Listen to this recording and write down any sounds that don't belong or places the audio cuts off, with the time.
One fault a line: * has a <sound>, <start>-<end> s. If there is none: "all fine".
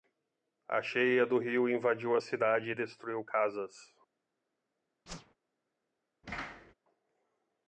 * has a whoosh, 5.1-5.3 s
* has a thud, 6.2-6.7 s